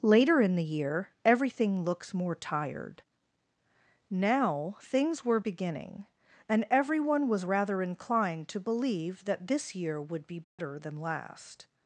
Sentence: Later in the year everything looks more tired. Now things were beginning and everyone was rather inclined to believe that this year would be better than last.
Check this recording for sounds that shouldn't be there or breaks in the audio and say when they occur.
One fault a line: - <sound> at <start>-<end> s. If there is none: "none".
- dropout at 10.4-10.6 s